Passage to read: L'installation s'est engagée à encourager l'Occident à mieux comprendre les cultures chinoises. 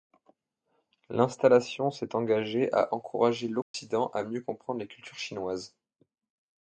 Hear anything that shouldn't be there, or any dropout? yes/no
yes